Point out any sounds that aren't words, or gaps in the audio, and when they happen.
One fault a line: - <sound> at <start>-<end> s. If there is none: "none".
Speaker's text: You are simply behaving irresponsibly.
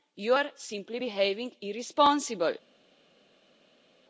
none